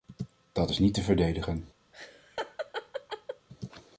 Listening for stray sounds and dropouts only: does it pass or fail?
fail